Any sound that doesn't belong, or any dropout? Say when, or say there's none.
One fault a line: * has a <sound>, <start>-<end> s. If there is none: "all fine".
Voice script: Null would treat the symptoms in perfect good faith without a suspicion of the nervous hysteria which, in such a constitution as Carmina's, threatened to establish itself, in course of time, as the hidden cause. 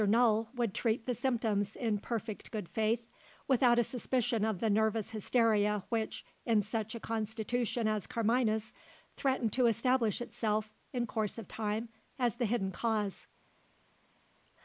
all fine